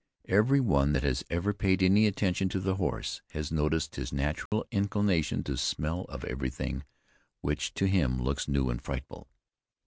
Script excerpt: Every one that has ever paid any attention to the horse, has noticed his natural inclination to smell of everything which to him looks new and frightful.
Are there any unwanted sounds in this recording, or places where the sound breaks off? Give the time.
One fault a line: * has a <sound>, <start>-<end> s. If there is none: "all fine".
* has a dropout, 4.5-4.5 s